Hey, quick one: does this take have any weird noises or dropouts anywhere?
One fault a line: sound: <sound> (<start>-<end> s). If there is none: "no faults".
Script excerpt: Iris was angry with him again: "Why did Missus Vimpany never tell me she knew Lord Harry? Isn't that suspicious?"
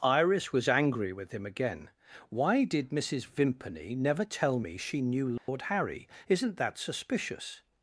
sound: dropout (5.4-5.5 s)